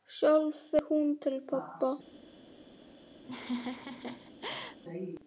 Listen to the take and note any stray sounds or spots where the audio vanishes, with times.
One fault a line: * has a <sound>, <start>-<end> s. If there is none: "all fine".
* has a laugh, 3.2-4.8 s